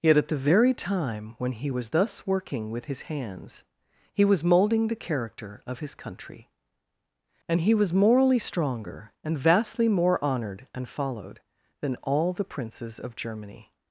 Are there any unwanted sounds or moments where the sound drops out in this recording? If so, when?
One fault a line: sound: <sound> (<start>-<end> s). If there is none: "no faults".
no faults